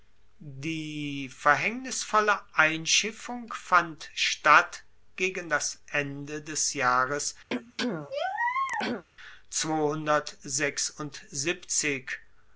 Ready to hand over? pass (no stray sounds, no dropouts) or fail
fail